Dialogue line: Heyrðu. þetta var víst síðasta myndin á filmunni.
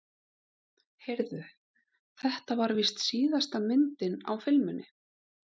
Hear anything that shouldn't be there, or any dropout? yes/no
no